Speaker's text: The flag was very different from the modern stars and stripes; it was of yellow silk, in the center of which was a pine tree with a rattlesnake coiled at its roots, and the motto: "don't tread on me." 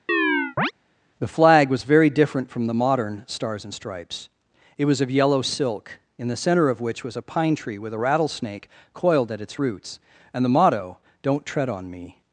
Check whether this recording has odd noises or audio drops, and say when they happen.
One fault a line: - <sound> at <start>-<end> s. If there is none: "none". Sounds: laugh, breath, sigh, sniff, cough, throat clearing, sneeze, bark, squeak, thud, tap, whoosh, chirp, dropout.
- chirp at 0.1-0.7 s